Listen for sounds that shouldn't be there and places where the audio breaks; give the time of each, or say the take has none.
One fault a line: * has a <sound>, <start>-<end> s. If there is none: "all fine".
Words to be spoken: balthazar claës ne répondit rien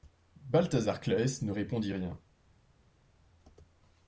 all fine